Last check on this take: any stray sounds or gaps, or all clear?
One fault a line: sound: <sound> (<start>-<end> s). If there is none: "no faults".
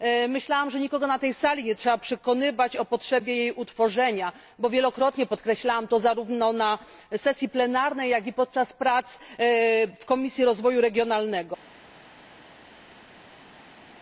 no faults